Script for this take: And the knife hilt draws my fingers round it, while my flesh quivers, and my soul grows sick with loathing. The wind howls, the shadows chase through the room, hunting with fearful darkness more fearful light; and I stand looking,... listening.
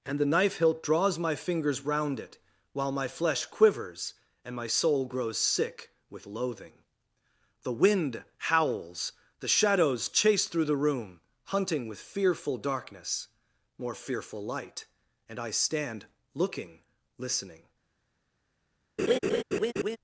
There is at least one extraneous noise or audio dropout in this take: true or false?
true